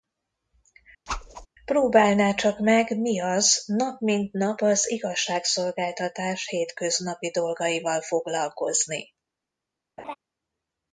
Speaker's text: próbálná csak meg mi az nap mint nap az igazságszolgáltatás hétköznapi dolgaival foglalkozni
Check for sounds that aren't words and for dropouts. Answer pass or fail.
fail